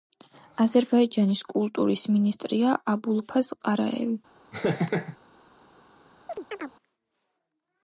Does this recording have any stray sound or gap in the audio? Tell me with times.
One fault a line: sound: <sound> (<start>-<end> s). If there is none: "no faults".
sound: laugh (4.5-5.2 s)
sound: chirp (6.3-6.7 s)